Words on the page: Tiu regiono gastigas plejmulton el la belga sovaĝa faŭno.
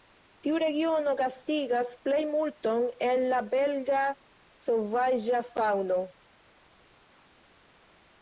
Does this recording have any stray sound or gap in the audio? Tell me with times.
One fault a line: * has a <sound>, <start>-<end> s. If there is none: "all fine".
all fine